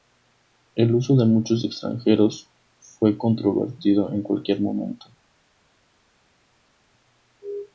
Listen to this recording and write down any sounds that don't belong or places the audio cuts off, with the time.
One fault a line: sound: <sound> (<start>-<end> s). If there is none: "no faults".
no faults